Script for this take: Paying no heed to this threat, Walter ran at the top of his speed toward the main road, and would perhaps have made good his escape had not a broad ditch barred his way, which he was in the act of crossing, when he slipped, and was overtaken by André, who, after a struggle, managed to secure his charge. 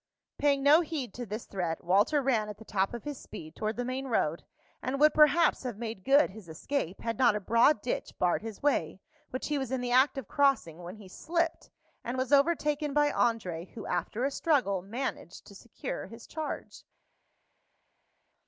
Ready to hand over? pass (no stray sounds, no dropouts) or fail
pass